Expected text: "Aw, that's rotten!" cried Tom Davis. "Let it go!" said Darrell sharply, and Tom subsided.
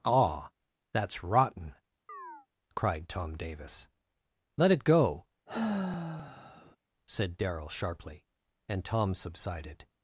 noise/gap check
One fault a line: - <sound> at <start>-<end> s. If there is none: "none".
- chirp at 2.1-2.5 s
- sigh at 5.5-6.8 s